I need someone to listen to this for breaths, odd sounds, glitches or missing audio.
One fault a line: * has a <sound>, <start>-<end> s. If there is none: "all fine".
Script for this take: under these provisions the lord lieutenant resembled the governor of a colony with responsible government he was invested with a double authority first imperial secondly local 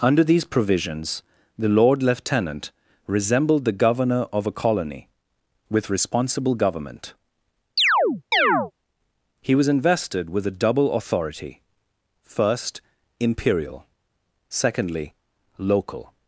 * has a chirp, 7.8-8.7 s